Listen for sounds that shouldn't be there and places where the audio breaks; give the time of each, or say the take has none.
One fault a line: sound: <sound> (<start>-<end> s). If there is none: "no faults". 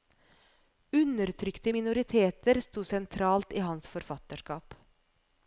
no faults